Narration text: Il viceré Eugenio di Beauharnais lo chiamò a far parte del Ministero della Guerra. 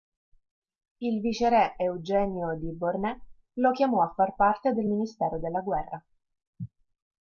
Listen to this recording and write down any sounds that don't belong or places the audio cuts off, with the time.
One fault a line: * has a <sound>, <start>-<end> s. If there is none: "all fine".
all fine